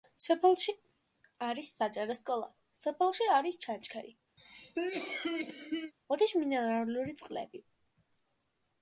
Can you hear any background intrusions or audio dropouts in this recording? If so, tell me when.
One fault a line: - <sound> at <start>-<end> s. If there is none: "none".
- cough at 4.4-5.9 s